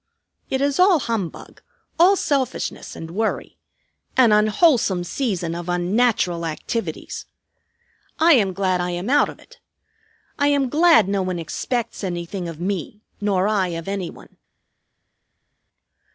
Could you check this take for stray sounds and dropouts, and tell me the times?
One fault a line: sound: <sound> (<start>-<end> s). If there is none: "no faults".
no faults